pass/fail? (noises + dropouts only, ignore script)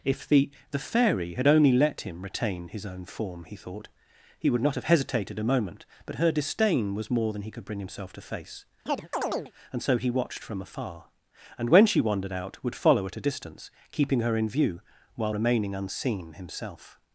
fail